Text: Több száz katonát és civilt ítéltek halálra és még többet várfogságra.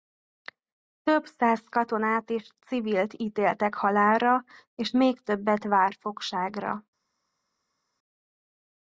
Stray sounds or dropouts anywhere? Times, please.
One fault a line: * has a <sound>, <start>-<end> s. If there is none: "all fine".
all fine